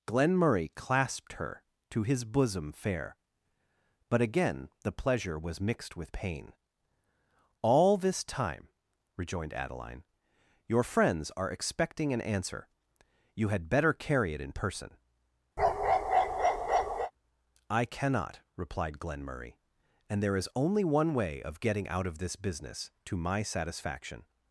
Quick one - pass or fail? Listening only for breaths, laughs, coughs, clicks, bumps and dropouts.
fail